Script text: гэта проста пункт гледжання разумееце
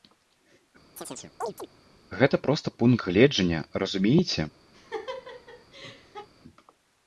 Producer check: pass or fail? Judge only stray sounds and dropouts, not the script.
fail